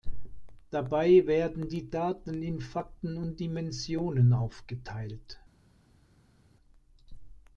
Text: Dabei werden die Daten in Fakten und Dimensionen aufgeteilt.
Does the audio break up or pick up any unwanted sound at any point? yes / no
no